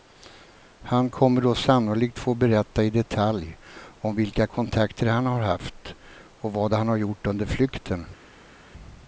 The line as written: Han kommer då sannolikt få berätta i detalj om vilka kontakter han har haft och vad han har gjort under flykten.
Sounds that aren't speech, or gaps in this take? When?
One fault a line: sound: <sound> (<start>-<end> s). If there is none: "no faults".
no faults